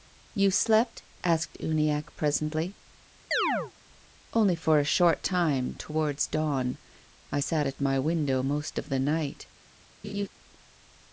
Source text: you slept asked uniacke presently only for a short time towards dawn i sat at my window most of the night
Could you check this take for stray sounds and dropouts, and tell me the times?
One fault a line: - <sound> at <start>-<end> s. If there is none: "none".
- chirp at 3.3-3.7 s
- laugh at 10.0-10.3 s